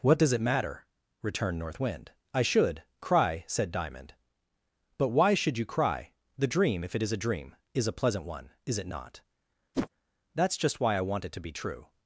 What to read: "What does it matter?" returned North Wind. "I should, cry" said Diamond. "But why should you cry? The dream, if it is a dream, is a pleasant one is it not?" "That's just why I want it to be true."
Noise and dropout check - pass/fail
fail